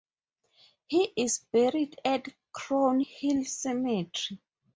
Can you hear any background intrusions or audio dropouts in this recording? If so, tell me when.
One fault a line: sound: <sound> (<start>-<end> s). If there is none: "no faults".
no faults